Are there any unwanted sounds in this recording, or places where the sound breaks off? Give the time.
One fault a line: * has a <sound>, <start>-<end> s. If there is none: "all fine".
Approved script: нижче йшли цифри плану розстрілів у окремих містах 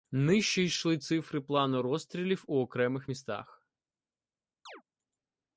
* has a chirp, 4.7-4.8 s